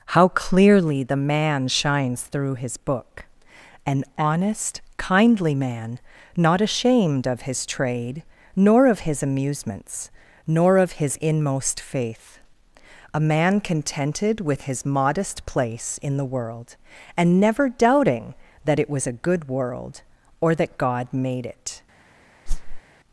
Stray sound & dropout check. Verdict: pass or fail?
fail